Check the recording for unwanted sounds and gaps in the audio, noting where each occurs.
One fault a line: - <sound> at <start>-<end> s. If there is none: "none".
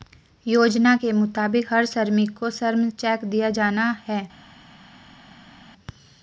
none